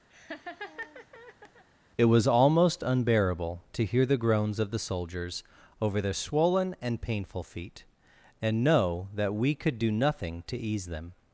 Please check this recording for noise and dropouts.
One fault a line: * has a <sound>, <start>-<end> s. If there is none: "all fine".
* has a laugh, 0.1-1.6 s